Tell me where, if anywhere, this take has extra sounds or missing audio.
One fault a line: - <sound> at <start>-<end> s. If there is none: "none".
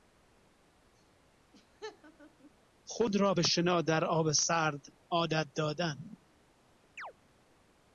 - laugh at 1.5-2.5 s
- chirp at 7.0-7.1 s